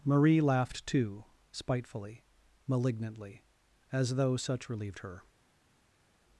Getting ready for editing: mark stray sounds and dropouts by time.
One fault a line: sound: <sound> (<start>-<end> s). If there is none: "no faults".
no faults